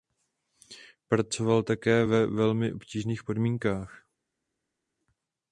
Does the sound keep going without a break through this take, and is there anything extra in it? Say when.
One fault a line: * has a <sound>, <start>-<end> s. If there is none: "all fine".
all fine